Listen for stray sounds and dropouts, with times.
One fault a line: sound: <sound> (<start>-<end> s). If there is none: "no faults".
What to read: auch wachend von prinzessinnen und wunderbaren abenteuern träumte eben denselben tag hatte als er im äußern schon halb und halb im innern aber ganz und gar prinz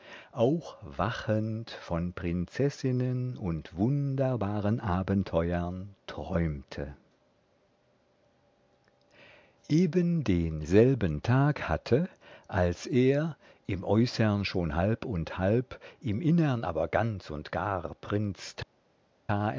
no faults